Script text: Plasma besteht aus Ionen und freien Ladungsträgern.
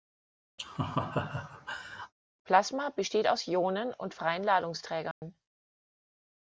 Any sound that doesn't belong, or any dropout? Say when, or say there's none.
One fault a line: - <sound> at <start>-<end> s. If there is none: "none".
- laugh at 0.6-2.1 s
- dropout at 5.1-5.2 s